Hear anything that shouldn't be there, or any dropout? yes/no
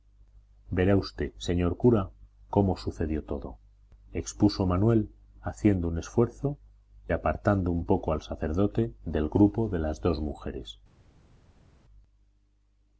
no